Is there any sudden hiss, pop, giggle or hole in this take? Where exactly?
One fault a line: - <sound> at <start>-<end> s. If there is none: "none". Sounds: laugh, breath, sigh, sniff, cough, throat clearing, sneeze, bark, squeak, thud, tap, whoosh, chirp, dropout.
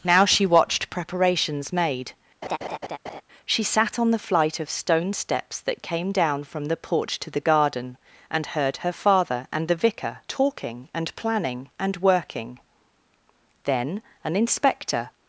- laugh at 2.4-3.2 s